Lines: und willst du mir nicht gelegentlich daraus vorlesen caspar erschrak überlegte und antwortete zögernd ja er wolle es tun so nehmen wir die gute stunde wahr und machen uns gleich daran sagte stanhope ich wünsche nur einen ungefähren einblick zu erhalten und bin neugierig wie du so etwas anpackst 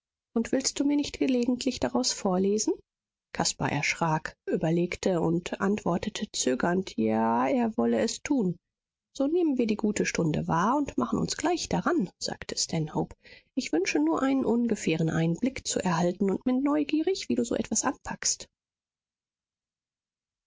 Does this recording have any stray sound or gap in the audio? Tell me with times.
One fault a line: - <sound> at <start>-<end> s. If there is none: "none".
none